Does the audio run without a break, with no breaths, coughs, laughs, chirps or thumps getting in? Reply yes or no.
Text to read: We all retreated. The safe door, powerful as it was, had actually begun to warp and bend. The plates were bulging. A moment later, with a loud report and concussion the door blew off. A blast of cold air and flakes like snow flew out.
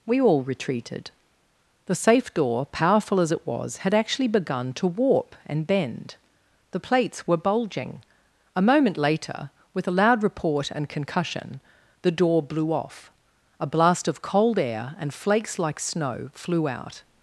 yes